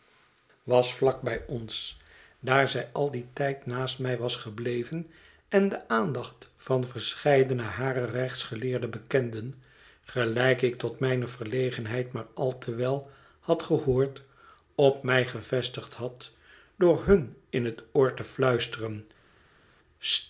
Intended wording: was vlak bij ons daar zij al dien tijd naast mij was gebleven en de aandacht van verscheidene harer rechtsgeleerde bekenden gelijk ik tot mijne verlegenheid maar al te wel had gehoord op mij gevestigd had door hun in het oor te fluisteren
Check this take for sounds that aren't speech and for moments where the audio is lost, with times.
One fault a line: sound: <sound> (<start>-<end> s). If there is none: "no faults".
no faults